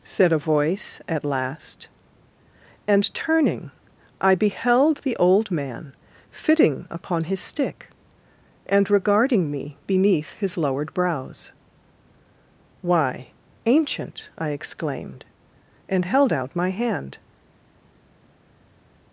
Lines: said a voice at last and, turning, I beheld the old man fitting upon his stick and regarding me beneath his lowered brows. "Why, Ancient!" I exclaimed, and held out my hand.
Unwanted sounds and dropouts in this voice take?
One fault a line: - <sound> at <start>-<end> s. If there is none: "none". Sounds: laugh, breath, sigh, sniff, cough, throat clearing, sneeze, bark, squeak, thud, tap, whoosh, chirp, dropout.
none